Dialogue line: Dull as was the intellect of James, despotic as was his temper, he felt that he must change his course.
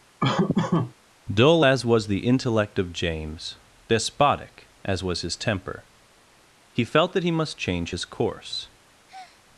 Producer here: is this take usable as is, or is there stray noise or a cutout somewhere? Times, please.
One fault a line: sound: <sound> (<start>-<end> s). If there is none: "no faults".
sound: laugh (0.2-0.9 s)
sound: breath (9.1-9.4 s)